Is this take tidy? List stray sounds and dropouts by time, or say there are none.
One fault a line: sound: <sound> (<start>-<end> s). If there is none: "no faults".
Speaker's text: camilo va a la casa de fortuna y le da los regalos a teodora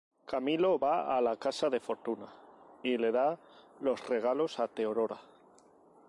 no faults